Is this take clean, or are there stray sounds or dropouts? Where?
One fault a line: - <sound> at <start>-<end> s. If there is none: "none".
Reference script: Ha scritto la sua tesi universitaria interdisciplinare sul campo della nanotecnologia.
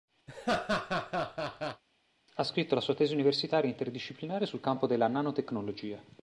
- laugh at 0.3-1.8 s